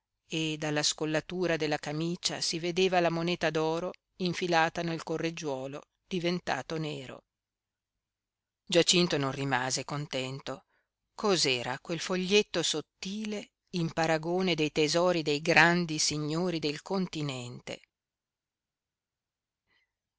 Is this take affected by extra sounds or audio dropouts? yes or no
no